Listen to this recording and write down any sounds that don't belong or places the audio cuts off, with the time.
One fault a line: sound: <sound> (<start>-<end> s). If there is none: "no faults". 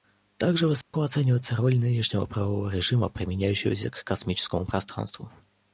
sound: dropout (0.8-0.9 s)